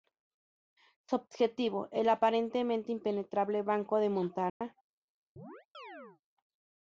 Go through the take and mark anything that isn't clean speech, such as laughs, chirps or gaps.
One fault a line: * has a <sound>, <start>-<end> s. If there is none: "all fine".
* has a dropout, 4.5-4.6 s
* has a chirp, 5.4-6.2 s